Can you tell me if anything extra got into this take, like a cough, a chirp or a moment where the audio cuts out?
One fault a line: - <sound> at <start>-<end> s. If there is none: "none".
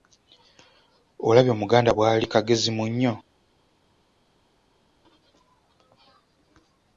none